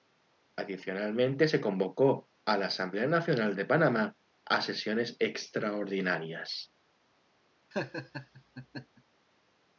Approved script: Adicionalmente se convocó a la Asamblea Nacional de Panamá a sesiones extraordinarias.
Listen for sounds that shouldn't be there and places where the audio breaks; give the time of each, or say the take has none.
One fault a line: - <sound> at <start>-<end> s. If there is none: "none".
- laugh at 7.7-9.0 s